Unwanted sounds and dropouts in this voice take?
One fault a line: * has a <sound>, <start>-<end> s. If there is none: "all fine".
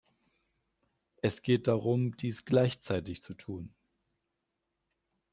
all fine